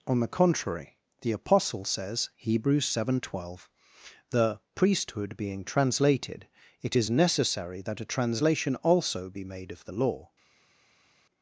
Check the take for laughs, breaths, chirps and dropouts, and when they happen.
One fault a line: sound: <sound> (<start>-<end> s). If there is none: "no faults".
no faults